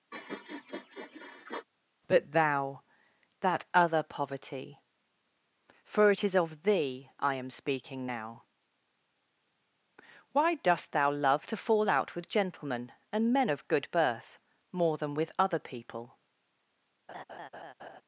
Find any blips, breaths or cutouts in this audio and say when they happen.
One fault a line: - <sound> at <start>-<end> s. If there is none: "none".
- sniff at 0.1-1.7 s
- laugh at 17.1-18.0 s